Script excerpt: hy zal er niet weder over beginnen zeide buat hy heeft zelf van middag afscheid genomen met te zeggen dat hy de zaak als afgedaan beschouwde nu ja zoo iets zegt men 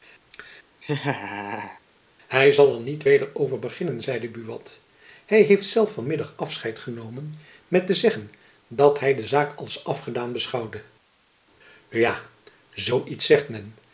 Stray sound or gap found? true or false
true